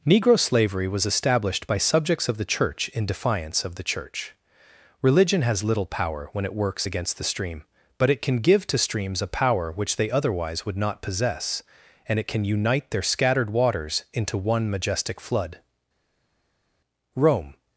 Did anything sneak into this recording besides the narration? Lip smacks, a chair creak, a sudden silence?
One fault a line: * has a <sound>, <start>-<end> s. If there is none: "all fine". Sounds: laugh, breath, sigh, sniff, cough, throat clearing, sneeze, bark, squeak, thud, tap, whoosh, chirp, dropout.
all fine